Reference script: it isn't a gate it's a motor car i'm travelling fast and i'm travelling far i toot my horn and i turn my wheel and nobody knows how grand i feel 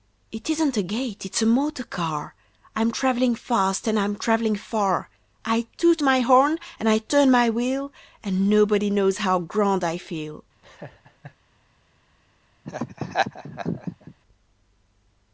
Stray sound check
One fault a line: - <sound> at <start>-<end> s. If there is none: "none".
- laugh at 10.6-11.4 s
- laugh at 12.6-14.1 s